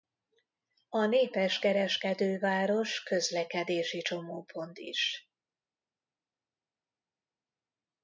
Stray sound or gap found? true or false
false